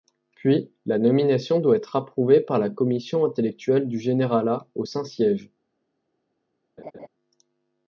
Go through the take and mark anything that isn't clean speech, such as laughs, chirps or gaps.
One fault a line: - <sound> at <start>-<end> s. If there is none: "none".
- laugh at 6.8-7.1 s